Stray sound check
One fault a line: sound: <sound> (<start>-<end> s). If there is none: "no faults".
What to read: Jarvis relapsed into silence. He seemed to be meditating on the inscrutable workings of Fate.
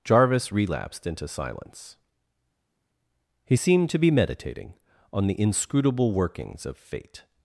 no faults